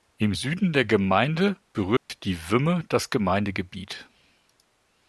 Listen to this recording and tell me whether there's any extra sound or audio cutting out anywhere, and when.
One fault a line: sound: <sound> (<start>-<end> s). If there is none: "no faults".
sound: dropout (2.0-2.1 s)